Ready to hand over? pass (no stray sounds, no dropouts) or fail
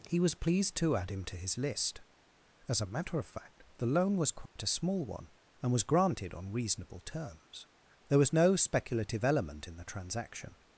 fail